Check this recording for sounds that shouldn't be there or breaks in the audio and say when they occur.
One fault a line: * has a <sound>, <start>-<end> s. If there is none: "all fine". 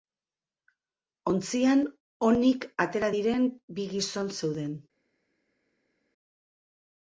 all fine